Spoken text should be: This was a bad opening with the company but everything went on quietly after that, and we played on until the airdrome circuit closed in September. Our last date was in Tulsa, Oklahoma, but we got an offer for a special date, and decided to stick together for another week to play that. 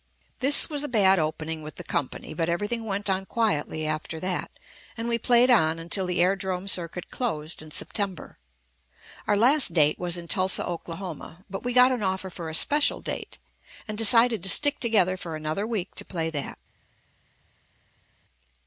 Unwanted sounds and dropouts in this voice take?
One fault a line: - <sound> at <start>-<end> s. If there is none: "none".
none